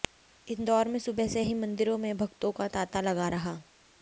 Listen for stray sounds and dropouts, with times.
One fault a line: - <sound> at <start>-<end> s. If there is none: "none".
none